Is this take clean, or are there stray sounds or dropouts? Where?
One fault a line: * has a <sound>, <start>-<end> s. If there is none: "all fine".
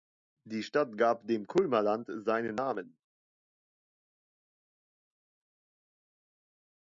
all fine